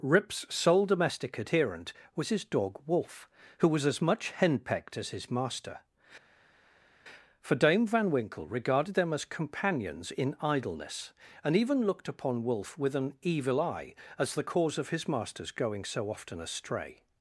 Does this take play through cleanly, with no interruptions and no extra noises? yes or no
yes